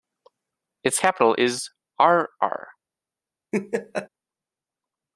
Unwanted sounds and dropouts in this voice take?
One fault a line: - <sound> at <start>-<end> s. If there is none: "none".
- laugh at 3.5-4.1 s